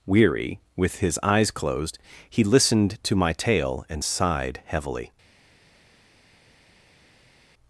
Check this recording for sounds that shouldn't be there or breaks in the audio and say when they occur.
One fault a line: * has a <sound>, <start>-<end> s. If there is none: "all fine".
all fine